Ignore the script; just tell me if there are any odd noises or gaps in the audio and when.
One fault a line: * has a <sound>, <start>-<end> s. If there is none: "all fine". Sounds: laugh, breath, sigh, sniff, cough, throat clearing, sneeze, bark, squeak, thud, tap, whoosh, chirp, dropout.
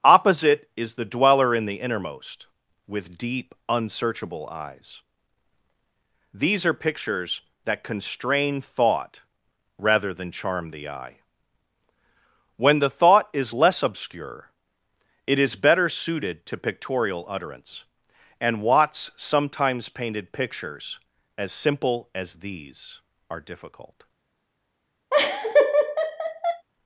* has a laugh, 25.1-26.6 s